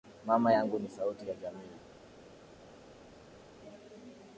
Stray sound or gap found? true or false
false